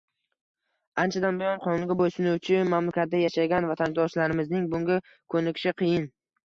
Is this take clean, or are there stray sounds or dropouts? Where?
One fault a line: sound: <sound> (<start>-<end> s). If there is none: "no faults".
no faults